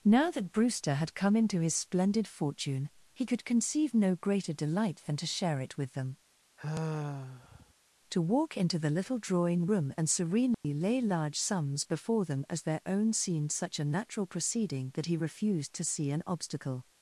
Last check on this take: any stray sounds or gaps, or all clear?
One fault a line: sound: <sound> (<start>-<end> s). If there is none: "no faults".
sound: sigh (6.6-7.7 s)
sound: dropout (10.5-10.6 s)